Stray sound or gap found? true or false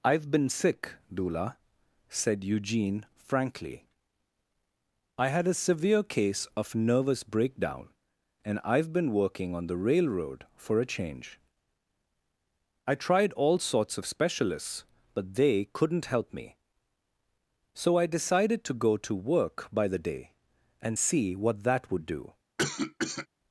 true